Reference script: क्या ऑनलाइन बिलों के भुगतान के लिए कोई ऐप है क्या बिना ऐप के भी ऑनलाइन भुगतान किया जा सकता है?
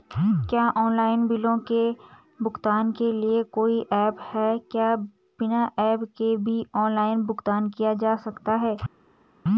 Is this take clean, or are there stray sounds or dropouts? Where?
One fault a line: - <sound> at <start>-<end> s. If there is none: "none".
none